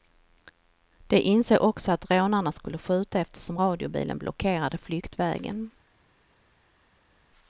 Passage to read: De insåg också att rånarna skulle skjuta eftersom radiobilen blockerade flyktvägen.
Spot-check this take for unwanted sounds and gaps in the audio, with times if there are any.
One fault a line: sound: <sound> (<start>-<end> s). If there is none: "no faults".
no faults